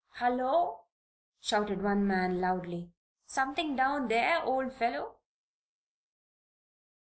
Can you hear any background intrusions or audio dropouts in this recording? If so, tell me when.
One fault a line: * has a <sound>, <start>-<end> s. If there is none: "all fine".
all fine